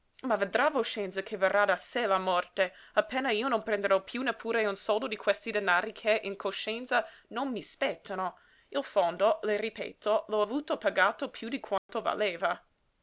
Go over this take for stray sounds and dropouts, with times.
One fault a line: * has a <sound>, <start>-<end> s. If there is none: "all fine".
* has a dropout, 11.8-11.9 s